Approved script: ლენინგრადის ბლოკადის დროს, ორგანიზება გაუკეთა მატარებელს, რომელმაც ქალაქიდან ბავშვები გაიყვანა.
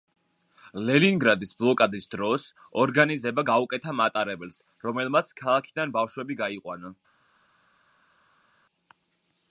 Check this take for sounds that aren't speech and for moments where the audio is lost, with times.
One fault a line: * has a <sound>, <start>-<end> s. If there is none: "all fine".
all fine